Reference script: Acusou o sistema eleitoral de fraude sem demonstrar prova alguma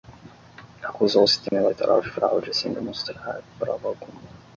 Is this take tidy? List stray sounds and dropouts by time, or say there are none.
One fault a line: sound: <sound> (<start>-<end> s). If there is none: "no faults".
sound: dropout (1.5-1.5 s)